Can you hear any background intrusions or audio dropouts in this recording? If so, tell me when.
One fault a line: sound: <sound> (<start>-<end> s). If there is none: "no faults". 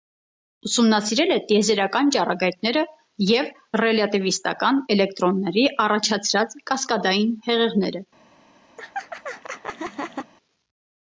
sound: laugh (8.8-10.3 s)